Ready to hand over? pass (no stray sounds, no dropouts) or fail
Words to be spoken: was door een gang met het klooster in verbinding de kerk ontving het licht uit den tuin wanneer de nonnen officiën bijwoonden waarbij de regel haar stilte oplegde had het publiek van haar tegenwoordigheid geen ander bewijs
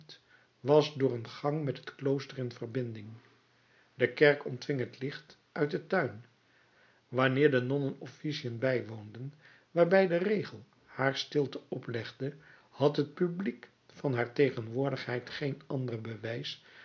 pass